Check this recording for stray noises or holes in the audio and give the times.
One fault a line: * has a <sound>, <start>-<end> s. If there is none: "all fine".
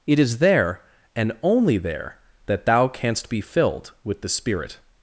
all fine